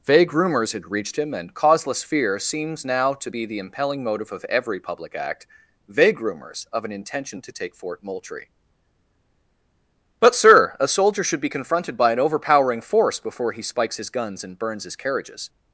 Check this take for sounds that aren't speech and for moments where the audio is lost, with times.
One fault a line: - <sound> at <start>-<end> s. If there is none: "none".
none